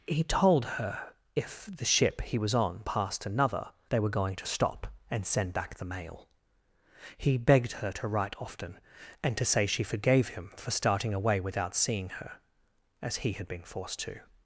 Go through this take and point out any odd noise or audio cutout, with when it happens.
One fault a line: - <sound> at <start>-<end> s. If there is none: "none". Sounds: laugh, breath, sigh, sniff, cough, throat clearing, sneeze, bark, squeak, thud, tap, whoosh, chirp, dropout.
none